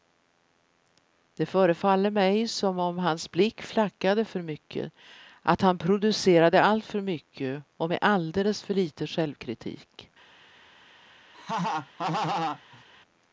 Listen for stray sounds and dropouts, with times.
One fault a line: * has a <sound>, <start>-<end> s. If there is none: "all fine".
* has a laugh, 11.3-12.8 s